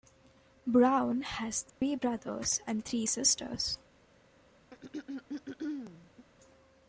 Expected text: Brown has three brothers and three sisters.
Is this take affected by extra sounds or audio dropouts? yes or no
yes